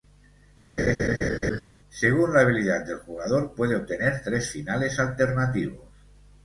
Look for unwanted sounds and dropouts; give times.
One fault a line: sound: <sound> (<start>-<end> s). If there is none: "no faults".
sound: laugh (0.8-1.6 s)